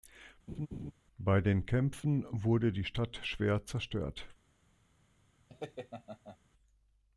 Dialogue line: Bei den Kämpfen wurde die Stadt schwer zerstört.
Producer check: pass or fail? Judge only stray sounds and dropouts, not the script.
fail